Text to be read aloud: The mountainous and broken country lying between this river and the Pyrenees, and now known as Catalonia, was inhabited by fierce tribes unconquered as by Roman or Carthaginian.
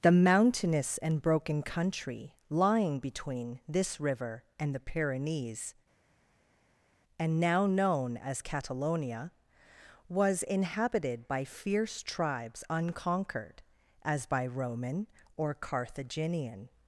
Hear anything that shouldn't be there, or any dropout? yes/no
no